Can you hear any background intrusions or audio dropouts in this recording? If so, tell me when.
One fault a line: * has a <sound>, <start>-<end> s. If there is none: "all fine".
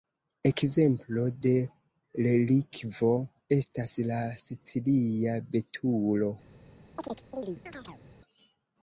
* has a chirp, 7.0-8.0 s